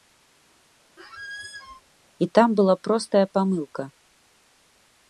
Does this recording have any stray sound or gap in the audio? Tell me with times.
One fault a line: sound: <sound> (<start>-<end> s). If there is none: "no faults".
sound: squeak (1.0-1.8 s)